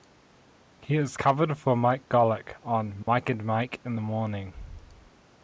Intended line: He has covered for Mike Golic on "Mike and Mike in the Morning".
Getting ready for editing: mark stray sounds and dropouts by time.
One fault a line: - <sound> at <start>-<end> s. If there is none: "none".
- dropout at 3.0-3.1 s